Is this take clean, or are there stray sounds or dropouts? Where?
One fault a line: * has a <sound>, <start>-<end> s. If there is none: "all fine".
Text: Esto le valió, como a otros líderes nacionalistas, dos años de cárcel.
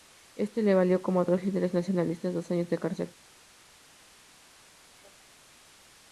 all fine